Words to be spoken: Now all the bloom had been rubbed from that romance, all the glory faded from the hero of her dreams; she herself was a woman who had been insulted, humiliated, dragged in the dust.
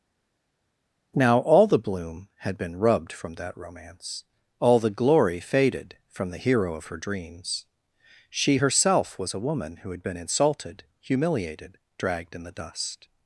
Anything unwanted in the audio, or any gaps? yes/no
no